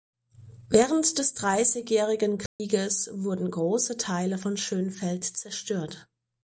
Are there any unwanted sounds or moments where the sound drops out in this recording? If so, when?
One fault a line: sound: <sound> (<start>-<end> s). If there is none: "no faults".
sound: dropout (2.5-2.6 s)